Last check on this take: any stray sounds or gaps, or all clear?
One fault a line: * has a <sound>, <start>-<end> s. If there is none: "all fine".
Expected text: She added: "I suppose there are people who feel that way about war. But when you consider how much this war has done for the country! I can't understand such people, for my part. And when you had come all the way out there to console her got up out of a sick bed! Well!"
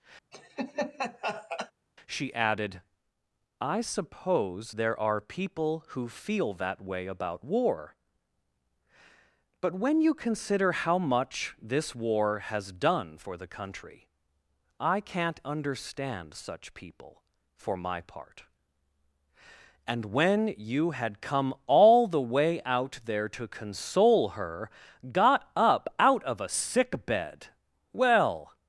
* has a laugh, 0.3-1.7 s